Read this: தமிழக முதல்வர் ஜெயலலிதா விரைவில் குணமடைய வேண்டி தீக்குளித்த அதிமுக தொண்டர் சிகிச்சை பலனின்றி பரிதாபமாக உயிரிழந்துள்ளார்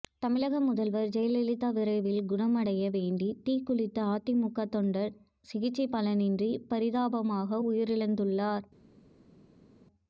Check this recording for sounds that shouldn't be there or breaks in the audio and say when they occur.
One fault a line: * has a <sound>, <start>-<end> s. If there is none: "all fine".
all fine